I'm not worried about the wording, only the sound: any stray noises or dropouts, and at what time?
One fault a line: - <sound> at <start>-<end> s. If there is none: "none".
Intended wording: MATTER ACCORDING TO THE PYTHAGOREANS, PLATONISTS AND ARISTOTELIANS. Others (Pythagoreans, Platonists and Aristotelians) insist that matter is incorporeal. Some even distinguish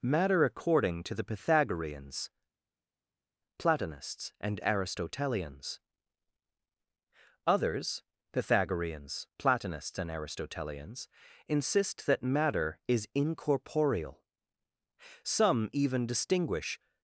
none